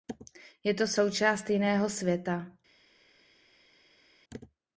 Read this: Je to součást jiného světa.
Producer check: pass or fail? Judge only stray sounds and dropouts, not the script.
pass